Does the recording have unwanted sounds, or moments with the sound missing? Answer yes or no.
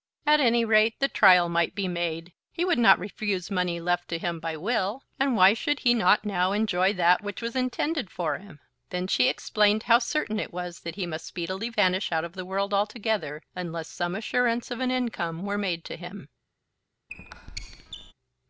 yes